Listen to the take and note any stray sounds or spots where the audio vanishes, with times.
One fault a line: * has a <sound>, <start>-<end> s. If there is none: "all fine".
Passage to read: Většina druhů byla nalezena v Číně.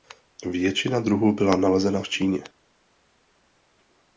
all fine